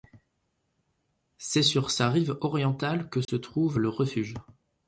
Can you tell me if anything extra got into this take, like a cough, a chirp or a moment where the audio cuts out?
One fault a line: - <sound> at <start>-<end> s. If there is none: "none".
- dropout at 3.2-3.3 s